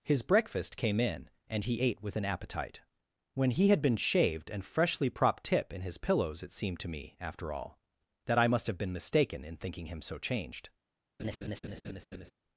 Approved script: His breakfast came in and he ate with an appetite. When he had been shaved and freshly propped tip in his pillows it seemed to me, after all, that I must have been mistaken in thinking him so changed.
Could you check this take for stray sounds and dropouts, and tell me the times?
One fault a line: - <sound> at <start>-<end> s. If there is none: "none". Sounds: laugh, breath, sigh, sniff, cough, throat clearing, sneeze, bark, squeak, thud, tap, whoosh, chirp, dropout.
- laugh at 11.2-12.3 s